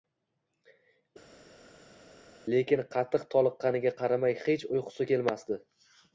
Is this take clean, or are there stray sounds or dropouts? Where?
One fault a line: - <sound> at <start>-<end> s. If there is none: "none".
none